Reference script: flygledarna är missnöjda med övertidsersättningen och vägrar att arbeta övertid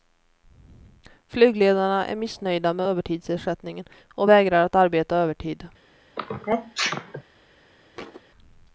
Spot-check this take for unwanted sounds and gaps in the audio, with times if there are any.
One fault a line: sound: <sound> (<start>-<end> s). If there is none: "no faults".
sound: sneeze (6.2-7.2 s)
sound: thud (7.9-8.2 s)